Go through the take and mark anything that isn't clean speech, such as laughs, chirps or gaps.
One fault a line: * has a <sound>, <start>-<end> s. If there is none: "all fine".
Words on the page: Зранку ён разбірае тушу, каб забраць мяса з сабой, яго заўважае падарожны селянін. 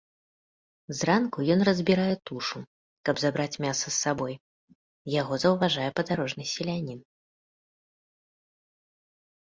all fine